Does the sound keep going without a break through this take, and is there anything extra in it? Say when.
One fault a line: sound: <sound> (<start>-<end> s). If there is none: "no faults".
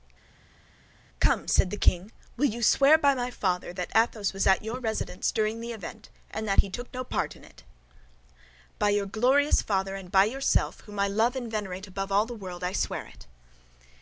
no faults